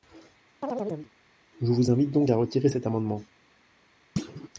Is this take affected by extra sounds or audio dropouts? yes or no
yes